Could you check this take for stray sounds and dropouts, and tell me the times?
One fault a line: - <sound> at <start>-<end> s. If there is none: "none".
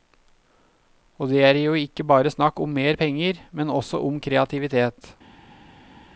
none